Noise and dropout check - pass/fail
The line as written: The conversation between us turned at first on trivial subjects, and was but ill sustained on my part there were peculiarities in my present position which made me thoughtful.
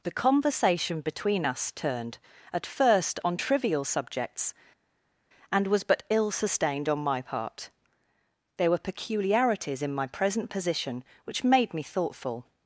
pass